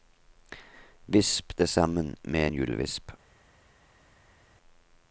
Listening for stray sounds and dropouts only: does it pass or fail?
pass